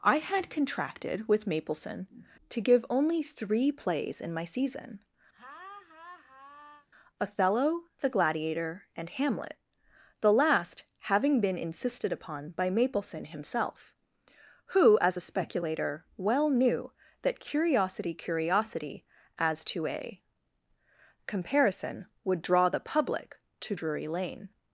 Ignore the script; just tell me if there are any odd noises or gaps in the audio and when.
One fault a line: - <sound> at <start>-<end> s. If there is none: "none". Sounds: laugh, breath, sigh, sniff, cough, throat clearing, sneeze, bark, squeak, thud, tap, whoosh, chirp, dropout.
- laugh at 5.3-6.9 s